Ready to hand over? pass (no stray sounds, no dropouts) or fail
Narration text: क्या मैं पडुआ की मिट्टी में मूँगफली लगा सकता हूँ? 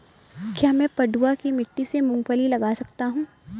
pass